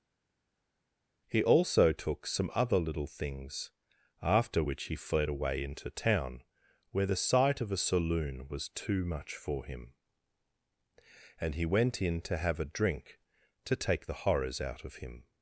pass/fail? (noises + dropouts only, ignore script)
pass